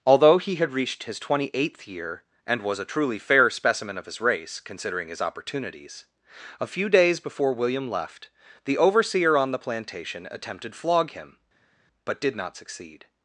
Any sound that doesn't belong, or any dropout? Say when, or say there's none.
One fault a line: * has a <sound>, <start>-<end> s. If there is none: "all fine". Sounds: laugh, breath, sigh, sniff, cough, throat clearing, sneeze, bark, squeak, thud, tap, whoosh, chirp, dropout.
all fine